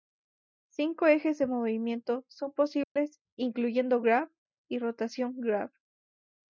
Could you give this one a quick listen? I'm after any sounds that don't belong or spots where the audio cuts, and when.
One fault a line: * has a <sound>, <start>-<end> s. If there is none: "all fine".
* has a dropout, 2.8-3.0 s